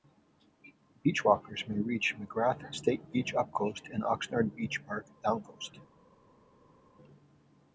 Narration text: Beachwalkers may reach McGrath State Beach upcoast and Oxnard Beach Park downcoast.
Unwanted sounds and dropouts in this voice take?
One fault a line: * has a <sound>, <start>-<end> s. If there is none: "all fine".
all fine